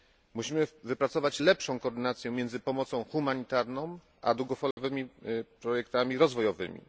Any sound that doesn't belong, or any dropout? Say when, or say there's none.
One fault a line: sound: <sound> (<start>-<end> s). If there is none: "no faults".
sound: dropout (4.7-4.8 s)